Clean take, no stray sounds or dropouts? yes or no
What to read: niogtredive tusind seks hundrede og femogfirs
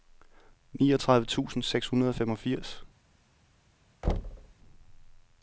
no